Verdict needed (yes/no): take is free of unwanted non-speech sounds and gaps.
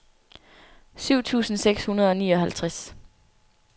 yes